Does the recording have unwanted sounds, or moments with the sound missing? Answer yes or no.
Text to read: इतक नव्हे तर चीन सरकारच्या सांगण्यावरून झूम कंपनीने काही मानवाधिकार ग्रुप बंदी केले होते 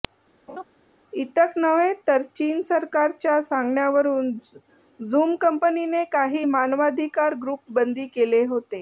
yes